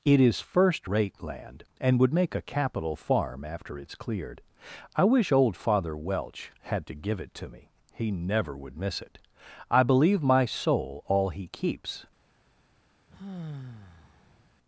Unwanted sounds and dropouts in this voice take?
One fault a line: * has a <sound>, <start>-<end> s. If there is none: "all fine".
* has a sigh, 13.1-14.5 s